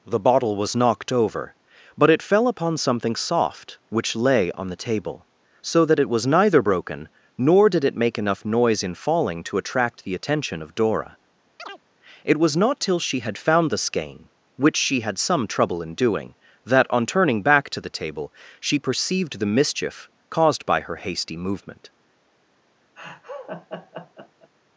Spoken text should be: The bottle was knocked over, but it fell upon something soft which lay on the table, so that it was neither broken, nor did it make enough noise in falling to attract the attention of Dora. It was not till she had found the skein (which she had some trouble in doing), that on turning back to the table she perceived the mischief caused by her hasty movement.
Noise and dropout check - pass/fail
fail